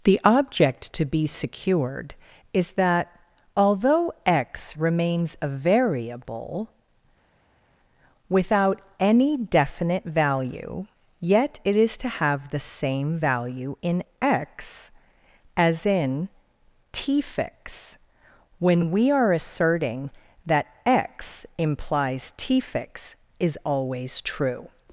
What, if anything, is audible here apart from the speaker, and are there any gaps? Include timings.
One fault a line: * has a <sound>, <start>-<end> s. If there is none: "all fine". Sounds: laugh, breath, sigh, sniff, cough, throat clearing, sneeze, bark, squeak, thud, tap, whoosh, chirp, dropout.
all fine